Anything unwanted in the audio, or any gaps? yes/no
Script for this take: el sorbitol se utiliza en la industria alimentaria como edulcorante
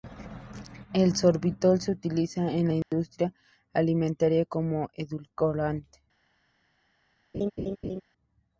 yes